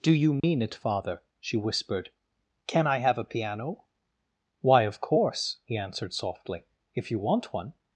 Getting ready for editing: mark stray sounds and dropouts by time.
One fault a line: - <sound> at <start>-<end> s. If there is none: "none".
- dropout at 0.4-0.4 s